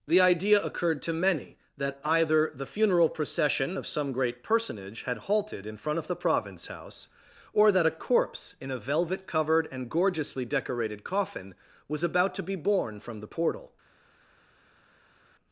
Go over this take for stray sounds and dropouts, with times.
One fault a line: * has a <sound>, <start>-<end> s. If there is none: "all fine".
all fine